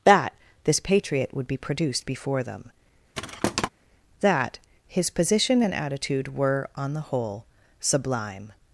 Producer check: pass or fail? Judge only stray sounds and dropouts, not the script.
fail